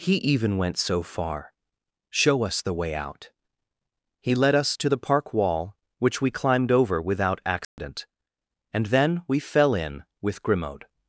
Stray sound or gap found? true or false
true